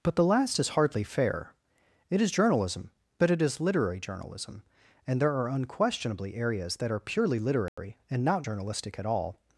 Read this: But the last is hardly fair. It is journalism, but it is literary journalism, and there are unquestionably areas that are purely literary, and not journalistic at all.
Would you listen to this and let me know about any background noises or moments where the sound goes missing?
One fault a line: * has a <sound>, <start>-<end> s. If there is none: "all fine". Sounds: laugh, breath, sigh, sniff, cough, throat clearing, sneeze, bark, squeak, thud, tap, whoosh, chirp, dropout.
* has a dropout, 7.7-7.8 s